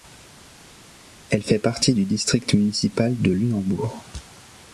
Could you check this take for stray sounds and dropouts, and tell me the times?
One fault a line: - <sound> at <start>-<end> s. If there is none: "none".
none